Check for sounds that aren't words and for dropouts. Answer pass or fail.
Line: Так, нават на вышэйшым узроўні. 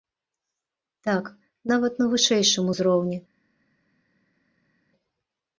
pass